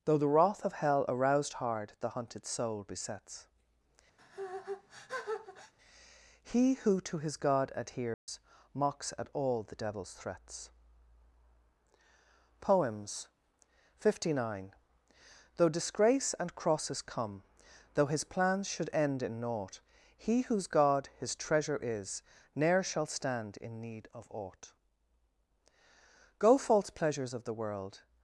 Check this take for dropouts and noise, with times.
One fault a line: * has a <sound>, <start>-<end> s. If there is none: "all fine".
* has a sneeze, 4.2-5.7 s
* has a dropout, 8.1-8.3 s